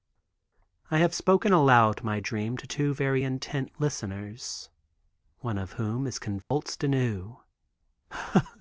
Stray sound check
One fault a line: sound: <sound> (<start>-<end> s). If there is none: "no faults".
sound: dropout (6.4-6.5 s)